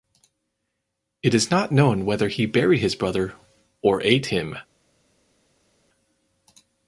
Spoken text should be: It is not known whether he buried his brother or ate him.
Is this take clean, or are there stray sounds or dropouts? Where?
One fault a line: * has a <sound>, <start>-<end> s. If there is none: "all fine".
all fine